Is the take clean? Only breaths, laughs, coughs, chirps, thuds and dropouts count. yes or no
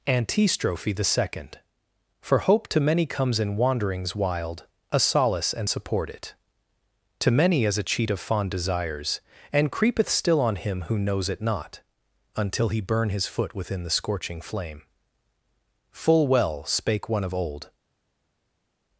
yes